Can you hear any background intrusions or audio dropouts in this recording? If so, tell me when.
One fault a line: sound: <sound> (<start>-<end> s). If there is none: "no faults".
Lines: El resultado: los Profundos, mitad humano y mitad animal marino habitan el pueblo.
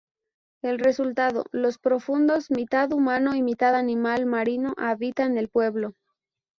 no faults